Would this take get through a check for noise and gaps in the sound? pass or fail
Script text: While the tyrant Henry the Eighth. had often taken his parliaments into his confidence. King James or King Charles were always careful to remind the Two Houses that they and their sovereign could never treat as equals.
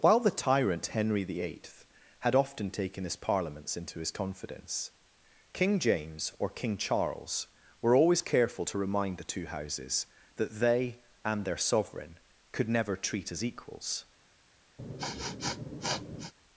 fail